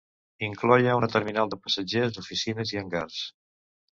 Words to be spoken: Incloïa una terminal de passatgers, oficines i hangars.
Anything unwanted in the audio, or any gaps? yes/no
no